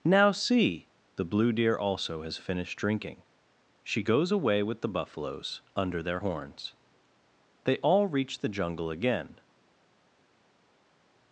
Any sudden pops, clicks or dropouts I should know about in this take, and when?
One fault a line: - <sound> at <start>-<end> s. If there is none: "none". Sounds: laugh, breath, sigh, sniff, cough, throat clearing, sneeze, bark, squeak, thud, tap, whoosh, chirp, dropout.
none